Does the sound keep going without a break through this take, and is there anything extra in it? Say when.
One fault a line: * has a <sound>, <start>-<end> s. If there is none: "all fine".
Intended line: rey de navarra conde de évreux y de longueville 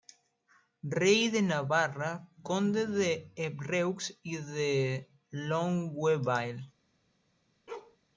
* has a bark, 7.7-8.0 s